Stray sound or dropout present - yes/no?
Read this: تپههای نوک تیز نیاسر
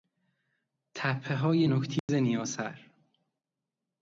yes